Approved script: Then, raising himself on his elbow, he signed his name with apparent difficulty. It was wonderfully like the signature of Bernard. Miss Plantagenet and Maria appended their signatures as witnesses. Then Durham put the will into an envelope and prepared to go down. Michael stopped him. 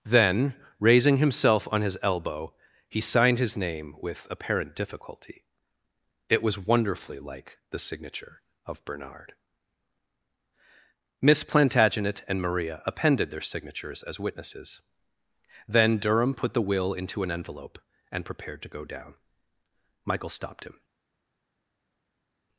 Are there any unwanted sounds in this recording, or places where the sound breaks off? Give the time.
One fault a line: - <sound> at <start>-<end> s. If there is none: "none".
none